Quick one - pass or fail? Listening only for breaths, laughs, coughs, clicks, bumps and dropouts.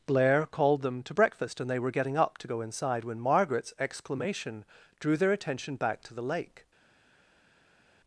pass